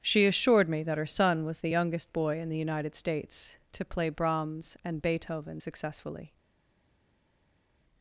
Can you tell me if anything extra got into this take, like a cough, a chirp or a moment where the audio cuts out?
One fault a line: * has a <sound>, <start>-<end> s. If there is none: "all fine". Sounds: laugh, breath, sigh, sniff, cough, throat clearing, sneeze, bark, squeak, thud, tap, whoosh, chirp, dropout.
all fine